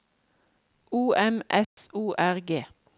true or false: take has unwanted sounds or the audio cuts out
true